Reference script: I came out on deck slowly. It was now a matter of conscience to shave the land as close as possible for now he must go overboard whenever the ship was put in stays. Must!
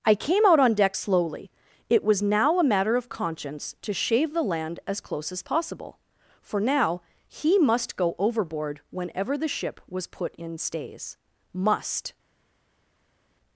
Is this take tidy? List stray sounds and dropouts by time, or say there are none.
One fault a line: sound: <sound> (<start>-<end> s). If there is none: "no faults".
no faults